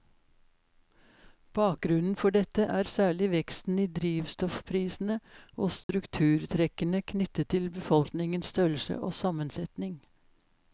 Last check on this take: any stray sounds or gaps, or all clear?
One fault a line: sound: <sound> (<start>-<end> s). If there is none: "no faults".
sound: dropout (5.8-5.9 s)